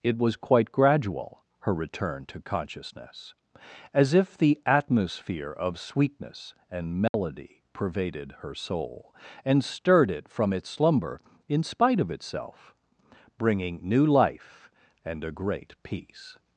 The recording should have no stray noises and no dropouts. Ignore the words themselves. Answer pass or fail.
fail